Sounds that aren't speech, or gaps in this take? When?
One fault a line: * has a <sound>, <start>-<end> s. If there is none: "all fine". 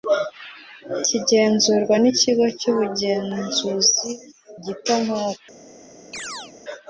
* has a chirp, 6.1-6.5 s